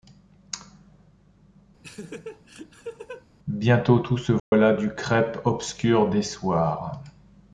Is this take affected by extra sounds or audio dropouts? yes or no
yes